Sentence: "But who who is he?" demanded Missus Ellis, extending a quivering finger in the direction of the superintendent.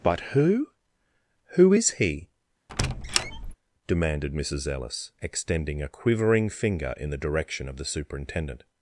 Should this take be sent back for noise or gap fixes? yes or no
yes